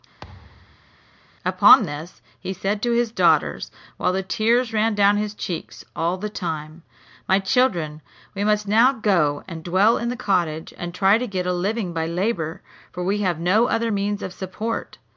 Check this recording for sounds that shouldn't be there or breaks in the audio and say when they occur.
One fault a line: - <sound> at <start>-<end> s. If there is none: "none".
- thud at 0.2-1.0 s